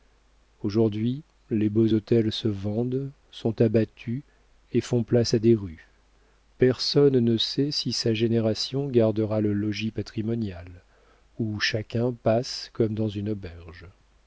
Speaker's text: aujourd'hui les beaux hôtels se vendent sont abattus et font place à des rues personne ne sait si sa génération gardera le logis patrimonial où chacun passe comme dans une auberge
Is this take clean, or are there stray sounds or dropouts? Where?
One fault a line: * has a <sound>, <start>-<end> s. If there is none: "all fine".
all fine